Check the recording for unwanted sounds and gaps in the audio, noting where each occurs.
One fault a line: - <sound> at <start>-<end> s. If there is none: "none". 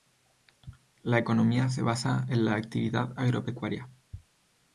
none